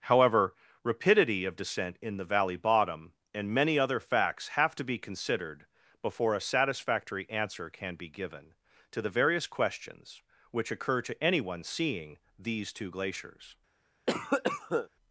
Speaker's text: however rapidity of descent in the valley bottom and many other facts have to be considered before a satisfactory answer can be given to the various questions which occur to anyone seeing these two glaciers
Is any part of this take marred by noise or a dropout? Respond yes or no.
yes